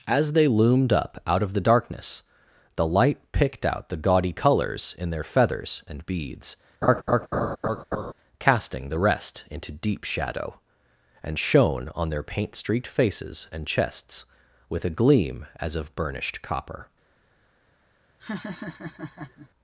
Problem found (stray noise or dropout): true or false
true